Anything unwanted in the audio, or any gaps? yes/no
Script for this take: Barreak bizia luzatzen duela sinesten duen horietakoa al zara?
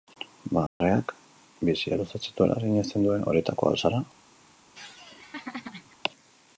yes